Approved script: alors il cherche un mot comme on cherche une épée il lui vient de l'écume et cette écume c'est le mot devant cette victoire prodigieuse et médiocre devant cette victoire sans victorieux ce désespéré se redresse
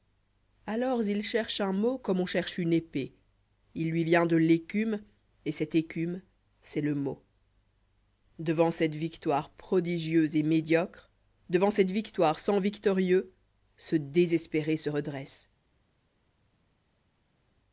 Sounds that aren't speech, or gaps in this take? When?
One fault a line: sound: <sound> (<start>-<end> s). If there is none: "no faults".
no faults